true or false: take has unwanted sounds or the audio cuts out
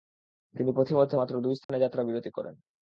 true